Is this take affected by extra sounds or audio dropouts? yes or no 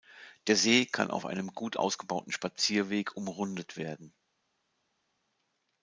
no